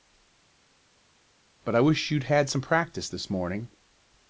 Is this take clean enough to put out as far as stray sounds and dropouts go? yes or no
yes